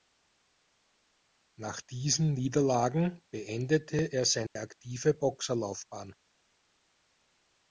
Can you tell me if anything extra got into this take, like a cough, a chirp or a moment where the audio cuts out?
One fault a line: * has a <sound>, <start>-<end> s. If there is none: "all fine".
* has a dropout, 4.5-4.6 s